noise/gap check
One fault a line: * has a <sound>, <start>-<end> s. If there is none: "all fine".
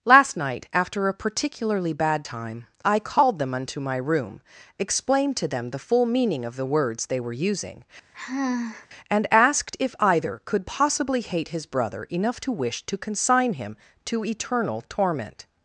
* has a sigh, 8.1-8.9 s